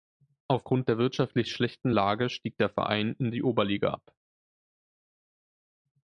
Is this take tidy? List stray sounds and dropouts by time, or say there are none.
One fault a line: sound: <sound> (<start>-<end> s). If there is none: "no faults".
no faults